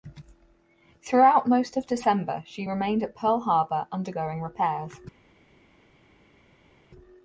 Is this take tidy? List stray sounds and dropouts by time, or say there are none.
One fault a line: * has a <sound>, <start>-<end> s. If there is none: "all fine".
all fine